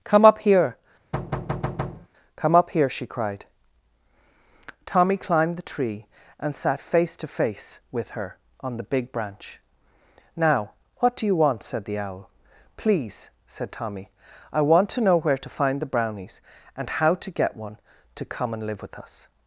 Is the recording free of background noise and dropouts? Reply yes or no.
no